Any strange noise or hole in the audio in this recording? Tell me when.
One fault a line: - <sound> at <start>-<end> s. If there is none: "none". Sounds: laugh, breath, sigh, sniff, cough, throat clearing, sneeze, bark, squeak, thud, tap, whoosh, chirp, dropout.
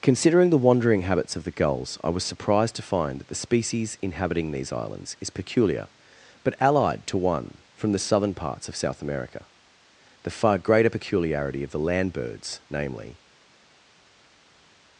none